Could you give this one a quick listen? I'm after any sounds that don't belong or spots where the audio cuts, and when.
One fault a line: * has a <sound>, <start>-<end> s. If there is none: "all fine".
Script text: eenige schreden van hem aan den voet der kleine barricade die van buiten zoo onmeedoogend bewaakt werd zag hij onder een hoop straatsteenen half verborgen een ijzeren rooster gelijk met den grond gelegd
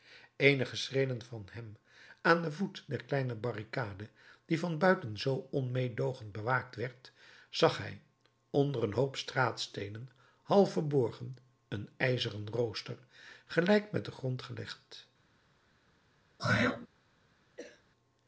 * has a throat clearing, 16.4-16.9 s
* has a cough, 17.6-17.8 s